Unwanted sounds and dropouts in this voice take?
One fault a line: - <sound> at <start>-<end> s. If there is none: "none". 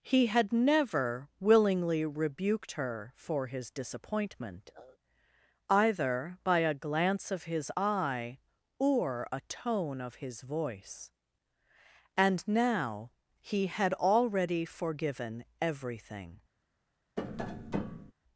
- tap at 17.2-18.1 s